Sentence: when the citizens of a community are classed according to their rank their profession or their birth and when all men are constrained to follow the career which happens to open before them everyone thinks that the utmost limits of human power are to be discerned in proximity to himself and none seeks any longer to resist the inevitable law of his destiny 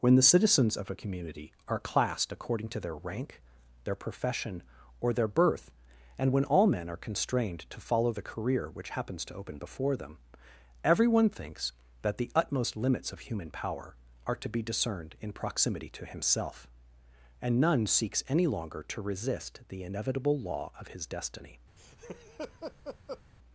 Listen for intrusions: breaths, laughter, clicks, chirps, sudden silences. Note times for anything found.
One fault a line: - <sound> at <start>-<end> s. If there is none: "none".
- laugh at 21.8-23.2 s